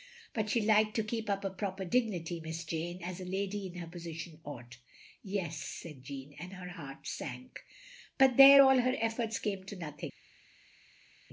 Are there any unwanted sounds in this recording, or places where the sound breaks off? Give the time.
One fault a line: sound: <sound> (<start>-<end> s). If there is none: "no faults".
no faults